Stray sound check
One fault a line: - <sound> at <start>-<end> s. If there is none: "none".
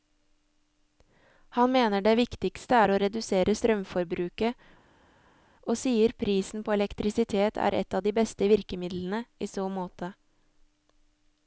none